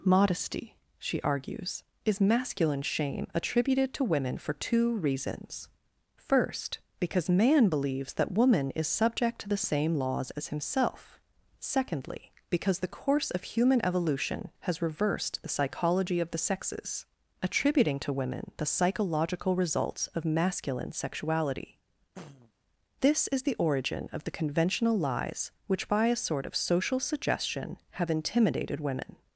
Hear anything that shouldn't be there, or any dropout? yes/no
yes